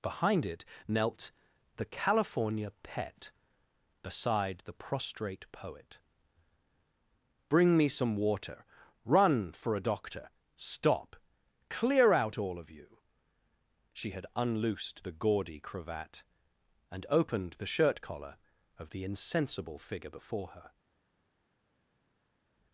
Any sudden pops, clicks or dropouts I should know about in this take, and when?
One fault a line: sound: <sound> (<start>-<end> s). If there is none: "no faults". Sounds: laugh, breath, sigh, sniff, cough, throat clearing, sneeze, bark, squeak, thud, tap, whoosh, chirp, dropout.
no faults